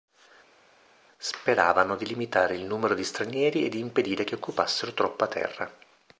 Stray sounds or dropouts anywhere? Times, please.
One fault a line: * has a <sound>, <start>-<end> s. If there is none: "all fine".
all fine